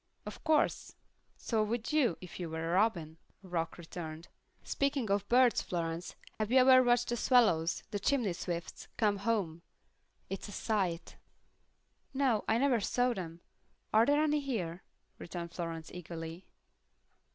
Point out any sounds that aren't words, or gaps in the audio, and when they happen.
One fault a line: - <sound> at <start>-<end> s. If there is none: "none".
- dropout at 6.3-6.4 s